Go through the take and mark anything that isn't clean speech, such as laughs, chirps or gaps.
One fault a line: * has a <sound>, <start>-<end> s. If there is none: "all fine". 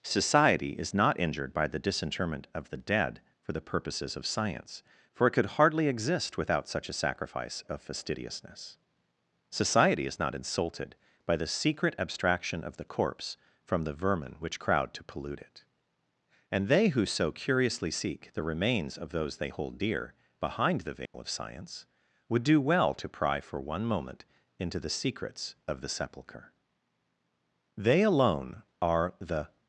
* has a dropout, 21.1-21.1 s